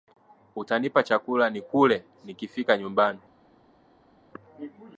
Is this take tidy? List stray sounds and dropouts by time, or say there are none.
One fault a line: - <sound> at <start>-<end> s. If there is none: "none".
none